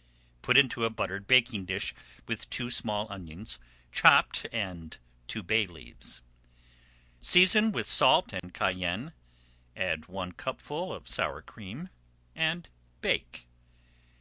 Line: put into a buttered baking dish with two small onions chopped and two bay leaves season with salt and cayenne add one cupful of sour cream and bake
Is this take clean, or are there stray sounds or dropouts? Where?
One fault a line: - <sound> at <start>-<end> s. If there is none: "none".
- dropout at 8.4-8.4 s